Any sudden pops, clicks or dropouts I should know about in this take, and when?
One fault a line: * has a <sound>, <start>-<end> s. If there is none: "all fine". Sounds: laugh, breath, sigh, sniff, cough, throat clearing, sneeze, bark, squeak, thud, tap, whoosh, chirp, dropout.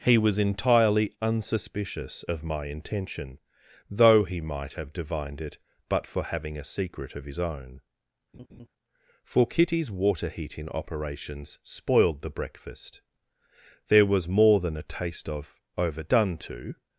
* has a laugh, 8.3-8.7 s